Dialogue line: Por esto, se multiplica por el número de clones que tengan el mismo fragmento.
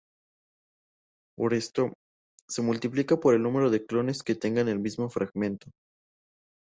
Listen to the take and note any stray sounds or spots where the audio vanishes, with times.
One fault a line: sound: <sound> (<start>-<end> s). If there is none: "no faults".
no faults